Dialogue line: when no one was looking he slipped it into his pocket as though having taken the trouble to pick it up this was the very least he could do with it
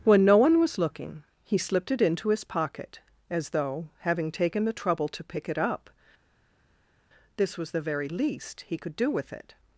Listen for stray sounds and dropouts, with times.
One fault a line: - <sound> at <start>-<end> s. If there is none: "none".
none